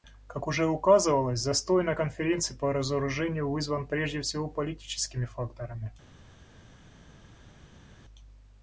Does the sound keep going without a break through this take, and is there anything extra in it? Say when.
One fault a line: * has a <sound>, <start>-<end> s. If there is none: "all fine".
all fine